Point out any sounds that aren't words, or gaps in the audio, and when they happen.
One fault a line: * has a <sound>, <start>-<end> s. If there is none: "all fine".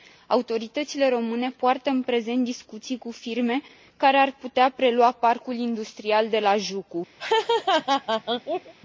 * has a laugh, 7.2-8.7 s